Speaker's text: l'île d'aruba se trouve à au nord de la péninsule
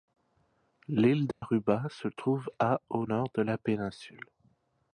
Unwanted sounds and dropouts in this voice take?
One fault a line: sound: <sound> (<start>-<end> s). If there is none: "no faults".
sound: dropout (1.3-1.4 s)